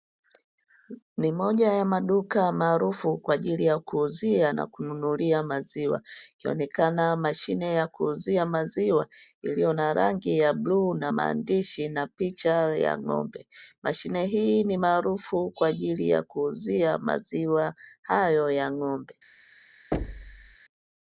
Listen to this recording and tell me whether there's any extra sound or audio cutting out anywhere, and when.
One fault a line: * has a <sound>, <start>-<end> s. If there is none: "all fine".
* has a thud, 19.9-20.6 s